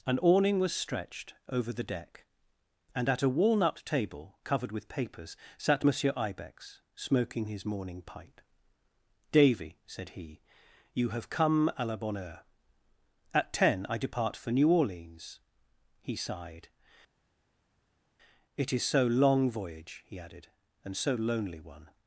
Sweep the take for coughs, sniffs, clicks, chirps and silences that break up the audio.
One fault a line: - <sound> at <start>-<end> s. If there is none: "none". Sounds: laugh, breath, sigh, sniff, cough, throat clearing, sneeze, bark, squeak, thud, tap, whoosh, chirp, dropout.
none